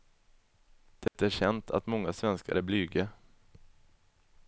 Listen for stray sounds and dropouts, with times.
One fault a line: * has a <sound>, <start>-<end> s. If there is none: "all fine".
* has a dropout, 1.1-1.1 s